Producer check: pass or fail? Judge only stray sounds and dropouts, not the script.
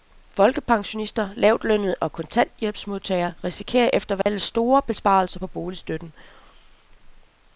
fail